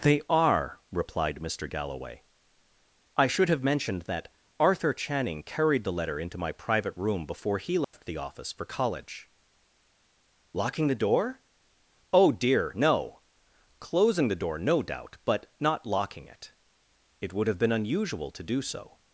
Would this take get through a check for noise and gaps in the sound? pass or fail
fail